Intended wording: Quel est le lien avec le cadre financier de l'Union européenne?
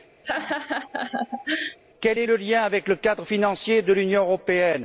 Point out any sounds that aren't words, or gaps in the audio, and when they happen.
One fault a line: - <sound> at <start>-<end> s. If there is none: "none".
- laugh at 0.2-1.8 s